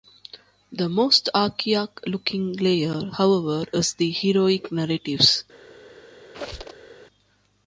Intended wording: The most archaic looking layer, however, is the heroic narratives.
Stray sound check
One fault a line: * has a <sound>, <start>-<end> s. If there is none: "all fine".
* has a squeak, 6.3-6.9 s